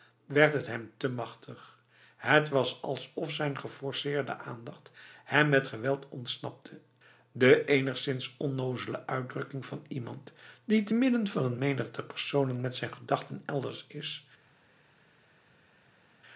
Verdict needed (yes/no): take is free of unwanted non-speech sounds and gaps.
yes